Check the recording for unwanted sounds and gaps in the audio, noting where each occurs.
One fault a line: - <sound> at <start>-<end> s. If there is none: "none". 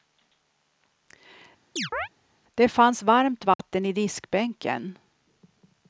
- chirp at 1.8-2.1 s
- dropout at 3.5-3.6 s